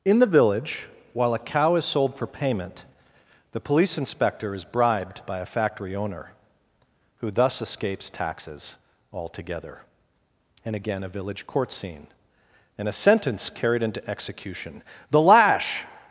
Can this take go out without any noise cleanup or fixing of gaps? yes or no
yes